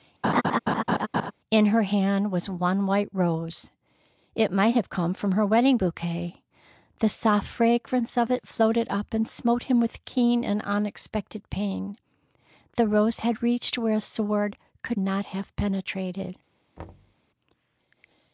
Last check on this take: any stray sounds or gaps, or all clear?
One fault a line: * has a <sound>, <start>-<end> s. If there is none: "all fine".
* has a laugh, 0.2-1.3 s
* has a thud, 16.8-17.2 s